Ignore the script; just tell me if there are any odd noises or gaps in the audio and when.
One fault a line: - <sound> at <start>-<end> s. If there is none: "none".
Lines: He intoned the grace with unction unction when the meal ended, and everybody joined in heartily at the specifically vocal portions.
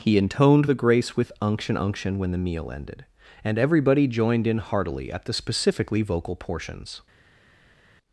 none